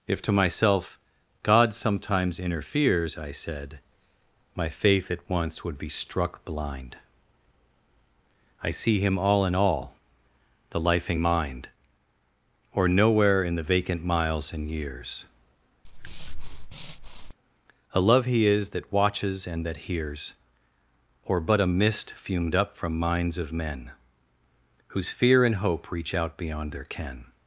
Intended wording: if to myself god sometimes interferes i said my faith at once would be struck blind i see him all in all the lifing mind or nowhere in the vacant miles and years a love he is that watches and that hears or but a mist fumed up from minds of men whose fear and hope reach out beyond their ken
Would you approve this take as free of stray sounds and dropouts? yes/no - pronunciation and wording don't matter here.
no